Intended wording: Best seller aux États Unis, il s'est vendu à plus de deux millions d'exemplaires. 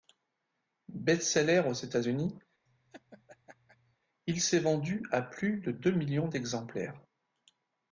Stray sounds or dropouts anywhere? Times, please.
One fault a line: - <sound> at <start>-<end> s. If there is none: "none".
- laugh at 2.7-4.0 s